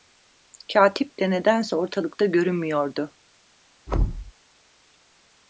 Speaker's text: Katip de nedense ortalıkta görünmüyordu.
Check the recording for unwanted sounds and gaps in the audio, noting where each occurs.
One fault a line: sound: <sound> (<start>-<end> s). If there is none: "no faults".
sound: thud (3.9-4.3 s)